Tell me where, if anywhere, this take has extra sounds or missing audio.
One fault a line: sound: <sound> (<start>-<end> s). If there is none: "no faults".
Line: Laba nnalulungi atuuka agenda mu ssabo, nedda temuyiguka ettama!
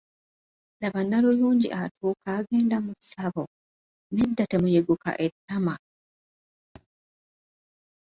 sound: thud (6.8-6.9 s)